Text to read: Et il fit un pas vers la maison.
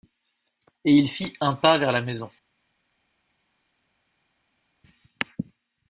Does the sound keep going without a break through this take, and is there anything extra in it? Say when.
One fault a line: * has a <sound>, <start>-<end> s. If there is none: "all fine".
all fine